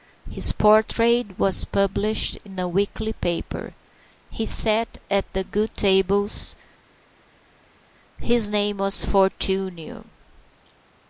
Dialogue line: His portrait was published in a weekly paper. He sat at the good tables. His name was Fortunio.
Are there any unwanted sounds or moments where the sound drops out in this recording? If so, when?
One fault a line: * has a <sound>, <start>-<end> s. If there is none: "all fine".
all fine